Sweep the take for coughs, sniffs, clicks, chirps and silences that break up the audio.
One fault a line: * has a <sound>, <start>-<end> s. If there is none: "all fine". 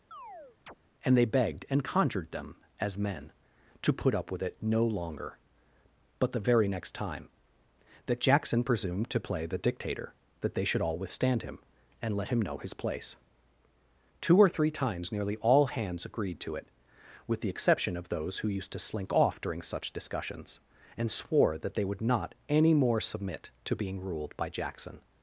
* has a chirp, 0.1-0.8 s